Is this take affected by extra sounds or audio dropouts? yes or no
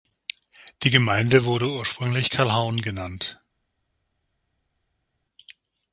no